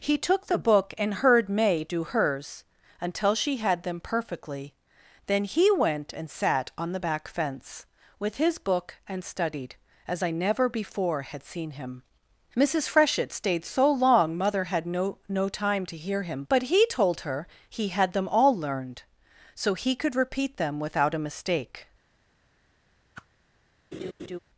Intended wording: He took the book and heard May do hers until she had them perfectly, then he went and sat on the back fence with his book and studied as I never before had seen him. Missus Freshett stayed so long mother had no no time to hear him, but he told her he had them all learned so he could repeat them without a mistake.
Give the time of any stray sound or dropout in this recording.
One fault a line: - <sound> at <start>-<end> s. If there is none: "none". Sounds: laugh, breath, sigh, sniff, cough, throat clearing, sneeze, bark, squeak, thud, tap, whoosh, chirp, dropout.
- whoosh at 23.1-23.3 s
- laugh at 23.9-24.4 s